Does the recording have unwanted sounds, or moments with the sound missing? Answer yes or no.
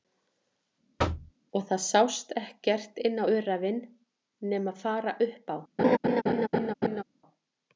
yes